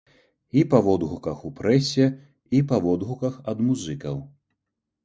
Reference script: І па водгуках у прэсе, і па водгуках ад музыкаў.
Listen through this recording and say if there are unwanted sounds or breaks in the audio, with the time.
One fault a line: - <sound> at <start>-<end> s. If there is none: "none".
none